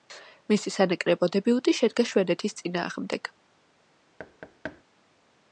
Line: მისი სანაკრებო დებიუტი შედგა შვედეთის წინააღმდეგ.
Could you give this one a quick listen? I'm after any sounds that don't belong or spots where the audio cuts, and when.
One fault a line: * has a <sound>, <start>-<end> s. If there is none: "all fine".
* has a thud, 4.2-4.8 s